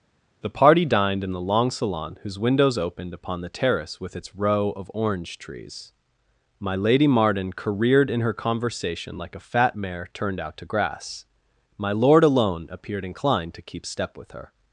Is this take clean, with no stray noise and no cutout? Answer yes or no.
yes